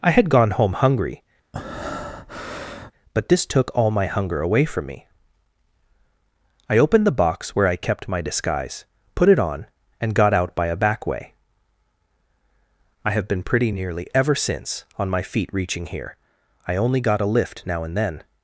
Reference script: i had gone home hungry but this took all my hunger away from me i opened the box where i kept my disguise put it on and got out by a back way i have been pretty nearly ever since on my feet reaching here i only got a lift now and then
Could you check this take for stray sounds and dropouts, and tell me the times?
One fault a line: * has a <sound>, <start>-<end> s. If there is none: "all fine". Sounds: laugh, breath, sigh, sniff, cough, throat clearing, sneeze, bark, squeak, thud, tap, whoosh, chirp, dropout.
* has a breath, 1.5-2.9 s